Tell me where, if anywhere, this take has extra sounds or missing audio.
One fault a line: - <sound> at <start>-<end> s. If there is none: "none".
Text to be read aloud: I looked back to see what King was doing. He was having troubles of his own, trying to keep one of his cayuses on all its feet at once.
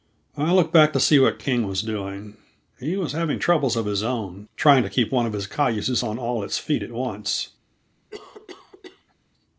- cough at 8.1-9.2 s